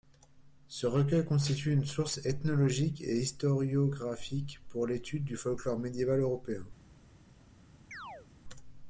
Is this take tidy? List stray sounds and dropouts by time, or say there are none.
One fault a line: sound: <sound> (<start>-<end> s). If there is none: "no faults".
sound: chirp (7.9-8.3 s)